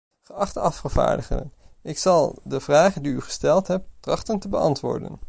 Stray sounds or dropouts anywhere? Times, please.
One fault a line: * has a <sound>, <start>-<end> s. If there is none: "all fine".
all fine